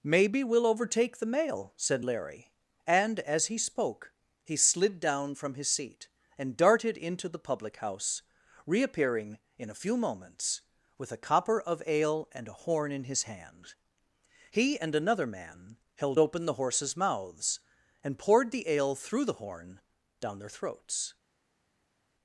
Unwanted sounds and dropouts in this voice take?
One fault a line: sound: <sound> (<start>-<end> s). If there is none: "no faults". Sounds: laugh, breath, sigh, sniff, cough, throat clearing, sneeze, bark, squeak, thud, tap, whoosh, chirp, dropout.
no faults